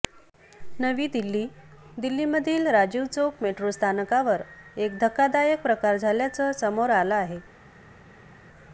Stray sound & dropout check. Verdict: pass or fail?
pass